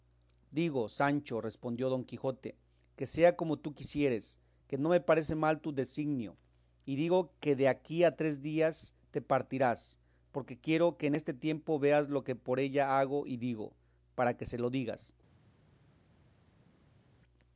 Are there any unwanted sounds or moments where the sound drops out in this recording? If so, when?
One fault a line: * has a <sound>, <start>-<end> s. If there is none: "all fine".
all fine